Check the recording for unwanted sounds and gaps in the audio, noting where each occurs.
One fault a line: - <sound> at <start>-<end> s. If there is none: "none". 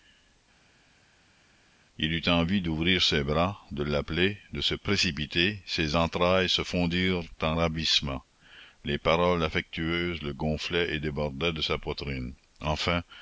none